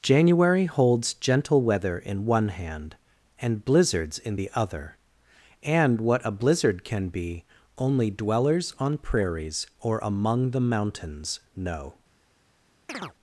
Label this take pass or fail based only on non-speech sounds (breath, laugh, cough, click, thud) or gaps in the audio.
fail